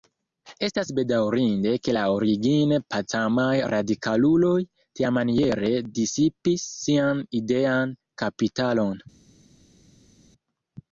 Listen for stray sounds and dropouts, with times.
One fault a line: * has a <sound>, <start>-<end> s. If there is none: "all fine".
all fine